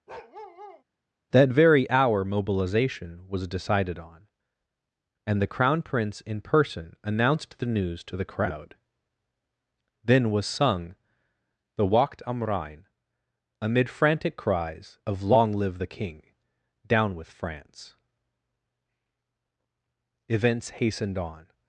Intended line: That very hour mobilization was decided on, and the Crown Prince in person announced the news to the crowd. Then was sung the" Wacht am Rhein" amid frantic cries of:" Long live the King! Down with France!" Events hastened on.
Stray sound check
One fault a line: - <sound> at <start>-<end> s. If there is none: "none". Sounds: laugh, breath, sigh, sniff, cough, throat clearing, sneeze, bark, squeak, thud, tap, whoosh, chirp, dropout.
- bark at 0.1-0.8 s